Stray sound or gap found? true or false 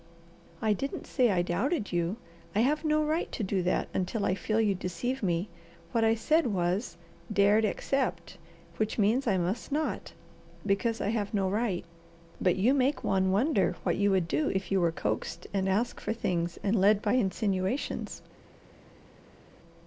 false